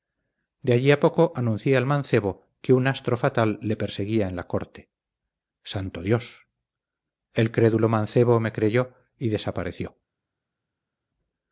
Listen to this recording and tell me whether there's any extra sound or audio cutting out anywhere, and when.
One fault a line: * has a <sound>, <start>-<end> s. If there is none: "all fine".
all fine